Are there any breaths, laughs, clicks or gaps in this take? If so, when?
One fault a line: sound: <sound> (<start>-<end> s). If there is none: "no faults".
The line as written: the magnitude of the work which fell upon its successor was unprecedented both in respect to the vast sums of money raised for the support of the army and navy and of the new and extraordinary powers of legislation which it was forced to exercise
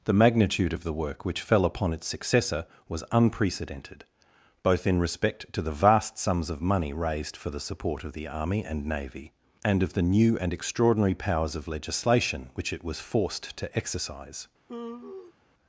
sound: sigh (14.7-15.3 s)